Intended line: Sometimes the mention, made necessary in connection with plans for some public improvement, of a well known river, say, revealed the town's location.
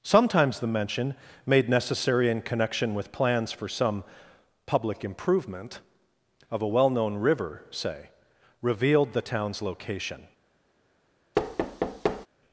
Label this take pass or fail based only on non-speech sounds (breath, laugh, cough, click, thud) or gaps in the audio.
fail